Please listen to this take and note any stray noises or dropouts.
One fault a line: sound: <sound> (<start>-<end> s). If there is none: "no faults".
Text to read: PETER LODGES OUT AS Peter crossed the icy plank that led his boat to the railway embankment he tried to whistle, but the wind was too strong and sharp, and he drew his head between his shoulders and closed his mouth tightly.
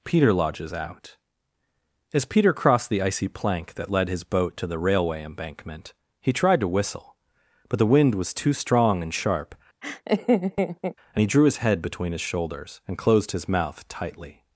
sound: laugh (9.8-11.0 s)